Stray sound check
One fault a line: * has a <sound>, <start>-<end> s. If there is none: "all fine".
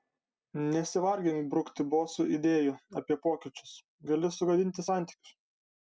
all fine